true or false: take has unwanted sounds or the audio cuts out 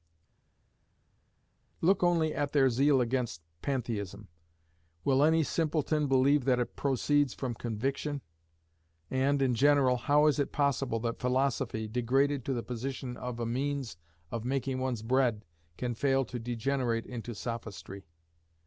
false